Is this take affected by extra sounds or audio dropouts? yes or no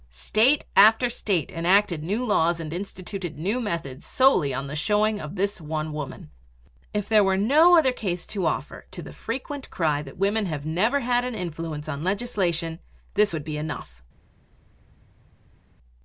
no